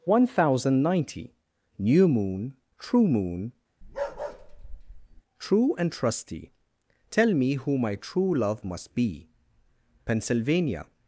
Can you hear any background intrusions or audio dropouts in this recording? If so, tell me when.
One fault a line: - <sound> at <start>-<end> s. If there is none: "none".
- bark at 3.8-5.2 s